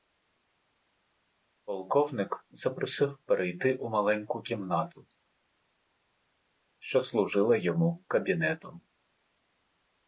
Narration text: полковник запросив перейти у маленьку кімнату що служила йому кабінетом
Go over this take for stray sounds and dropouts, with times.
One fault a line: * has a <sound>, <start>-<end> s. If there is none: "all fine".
all fine